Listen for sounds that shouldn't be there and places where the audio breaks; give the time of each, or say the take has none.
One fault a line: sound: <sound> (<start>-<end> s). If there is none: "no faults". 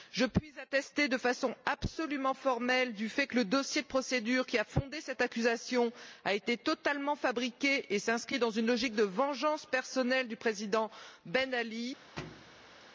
sound: thud (12.2-12.9 s)